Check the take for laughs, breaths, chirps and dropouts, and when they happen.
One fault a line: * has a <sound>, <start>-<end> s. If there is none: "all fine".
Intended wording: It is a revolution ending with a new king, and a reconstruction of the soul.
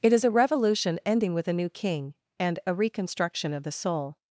all fine